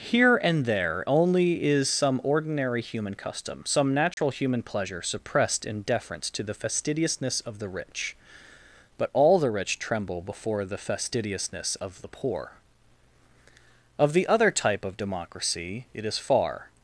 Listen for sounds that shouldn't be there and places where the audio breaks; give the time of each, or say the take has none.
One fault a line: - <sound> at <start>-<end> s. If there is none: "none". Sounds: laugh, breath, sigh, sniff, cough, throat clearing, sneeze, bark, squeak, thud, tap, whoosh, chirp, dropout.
- dropout at 4.1-4.2 s